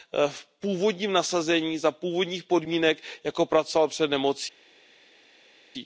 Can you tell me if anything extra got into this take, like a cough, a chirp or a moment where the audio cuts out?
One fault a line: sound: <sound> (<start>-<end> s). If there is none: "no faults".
no faults